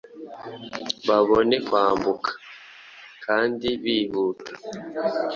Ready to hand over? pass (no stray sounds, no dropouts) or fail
pass